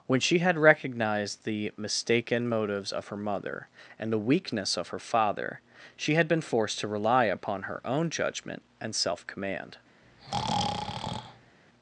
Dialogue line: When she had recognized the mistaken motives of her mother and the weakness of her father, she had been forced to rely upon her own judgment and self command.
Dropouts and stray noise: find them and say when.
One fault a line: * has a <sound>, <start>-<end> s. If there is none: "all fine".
* has a breath, 10.0-11.6 s